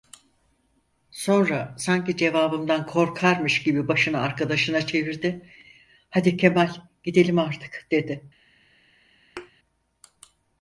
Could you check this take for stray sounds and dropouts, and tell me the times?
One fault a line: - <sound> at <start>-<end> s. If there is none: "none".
- thud at 9.4-9.5 s